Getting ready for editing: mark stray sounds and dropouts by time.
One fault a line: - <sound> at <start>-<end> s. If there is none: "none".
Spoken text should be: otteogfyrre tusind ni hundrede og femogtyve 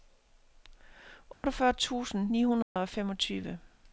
- dropout at 1.3-1.4 s
- dropout at 2.6-2.8 s